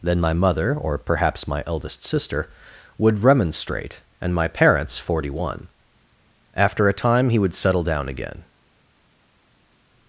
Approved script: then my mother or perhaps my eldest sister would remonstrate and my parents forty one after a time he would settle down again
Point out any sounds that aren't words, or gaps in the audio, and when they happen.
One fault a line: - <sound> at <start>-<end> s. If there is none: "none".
none